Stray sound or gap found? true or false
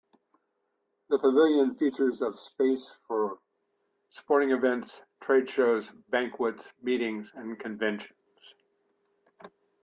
false